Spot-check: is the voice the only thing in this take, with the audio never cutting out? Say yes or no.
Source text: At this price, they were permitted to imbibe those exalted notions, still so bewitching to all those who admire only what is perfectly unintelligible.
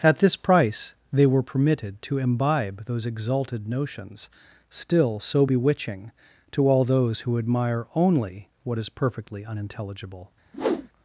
no